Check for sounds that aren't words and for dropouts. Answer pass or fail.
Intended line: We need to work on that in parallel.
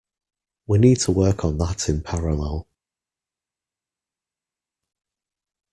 pass